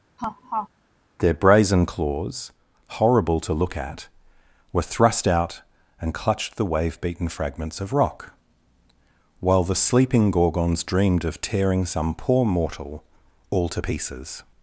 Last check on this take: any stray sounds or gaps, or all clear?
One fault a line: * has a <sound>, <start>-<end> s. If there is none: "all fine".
* has a laugh, 0.2-0.7 s